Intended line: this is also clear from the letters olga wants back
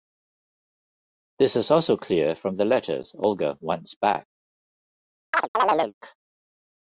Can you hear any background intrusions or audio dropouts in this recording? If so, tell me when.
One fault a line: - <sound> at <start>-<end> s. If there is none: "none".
- chirp at 5.3-5.9 s